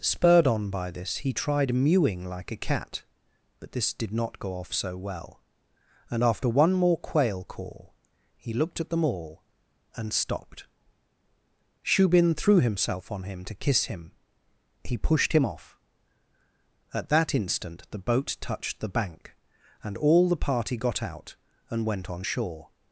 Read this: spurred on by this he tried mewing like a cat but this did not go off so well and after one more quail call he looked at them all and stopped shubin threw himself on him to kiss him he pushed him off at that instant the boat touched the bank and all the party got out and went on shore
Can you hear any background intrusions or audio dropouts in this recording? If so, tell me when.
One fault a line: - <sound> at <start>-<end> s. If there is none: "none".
none